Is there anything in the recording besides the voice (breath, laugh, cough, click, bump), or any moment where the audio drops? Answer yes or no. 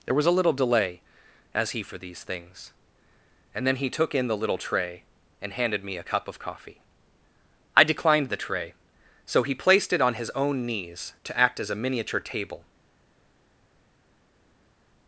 no